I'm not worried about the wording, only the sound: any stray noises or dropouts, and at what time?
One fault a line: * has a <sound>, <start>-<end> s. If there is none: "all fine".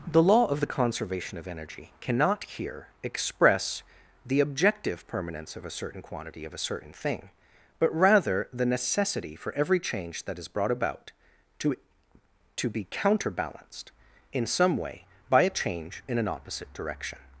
all fine